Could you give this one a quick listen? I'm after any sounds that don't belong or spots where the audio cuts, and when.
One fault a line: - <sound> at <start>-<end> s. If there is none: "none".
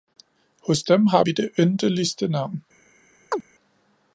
- chirp at 3.3-3.4 s